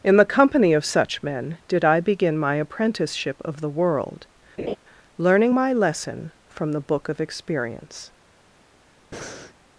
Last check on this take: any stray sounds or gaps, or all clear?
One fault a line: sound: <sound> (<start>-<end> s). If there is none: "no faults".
sound: laugh (4.6-4.8 s)
sound: breath (9.1-9.5 s)